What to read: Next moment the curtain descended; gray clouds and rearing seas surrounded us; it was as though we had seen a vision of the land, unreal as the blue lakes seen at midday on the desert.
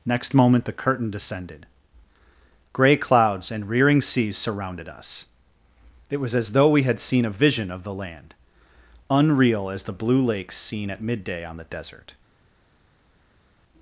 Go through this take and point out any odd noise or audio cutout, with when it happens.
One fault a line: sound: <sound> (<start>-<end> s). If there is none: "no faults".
no faults